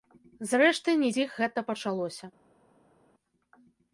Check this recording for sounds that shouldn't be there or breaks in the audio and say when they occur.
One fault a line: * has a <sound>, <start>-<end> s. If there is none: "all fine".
all fine